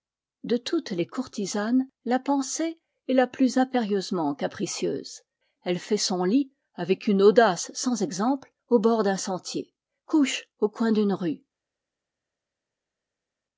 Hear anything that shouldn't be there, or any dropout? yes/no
no